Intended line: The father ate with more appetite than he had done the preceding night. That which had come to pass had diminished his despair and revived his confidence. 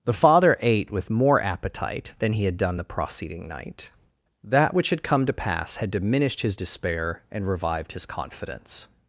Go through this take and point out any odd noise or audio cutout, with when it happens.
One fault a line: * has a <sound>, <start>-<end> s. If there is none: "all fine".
all fine